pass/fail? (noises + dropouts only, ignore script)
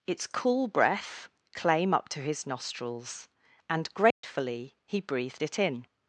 fail